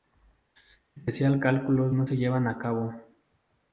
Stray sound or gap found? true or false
false